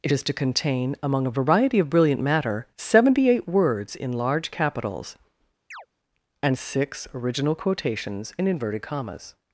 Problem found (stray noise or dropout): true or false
true